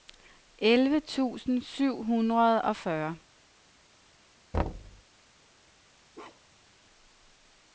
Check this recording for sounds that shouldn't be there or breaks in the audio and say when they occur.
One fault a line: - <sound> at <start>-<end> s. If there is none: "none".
- thud at 4.5-5.0 s
- bark at 6.1-6.7 s